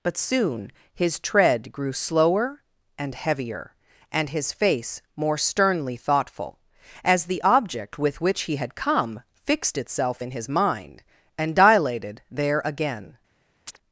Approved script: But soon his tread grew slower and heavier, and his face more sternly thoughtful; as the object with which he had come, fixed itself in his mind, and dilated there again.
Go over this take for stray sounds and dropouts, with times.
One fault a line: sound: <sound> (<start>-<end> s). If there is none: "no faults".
sound: chirp (13.7-13.8 s)